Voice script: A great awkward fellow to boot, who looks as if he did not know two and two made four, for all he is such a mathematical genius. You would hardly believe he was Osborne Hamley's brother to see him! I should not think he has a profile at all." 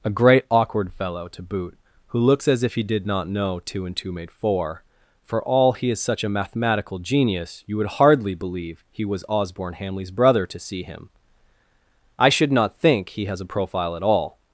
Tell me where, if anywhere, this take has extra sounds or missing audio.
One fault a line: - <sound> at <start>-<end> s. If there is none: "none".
none